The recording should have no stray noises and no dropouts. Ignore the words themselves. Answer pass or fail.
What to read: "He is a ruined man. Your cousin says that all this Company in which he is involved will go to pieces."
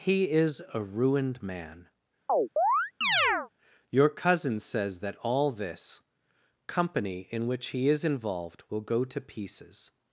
fail